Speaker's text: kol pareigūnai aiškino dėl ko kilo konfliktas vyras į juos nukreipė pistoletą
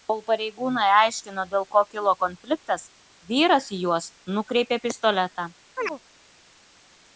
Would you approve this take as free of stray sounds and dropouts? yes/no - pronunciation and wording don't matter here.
no